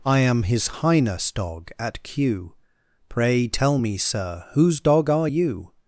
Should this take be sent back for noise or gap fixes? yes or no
no